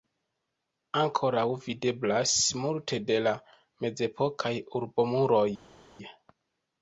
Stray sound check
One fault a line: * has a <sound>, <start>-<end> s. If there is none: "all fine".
all fine